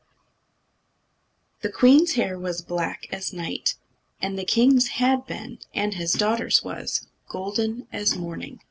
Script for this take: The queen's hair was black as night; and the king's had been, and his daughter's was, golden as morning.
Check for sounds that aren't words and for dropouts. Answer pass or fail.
pass